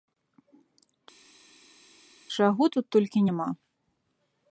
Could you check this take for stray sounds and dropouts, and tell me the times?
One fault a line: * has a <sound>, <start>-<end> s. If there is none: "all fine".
all fine